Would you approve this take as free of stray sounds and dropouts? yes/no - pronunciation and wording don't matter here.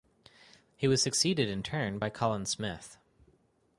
yes